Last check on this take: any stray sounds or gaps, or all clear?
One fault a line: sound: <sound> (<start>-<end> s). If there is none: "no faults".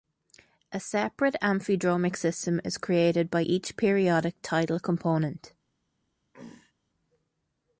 sound: throat clearing (6.3-6.7 s)